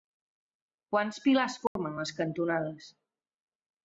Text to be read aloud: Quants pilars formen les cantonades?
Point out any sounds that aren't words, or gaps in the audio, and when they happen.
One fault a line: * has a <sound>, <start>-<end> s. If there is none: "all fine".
* has a dropout, 1.7-1.8 s